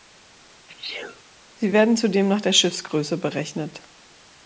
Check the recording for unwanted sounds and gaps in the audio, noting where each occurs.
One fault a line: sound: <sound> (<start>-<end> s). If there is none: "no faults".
sound: sneeze (0.7-1.2 s)